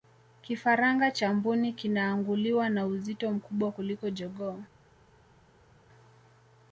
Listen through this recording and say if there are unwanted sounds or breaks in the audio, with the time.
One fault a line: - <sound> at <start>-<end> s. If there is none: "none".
none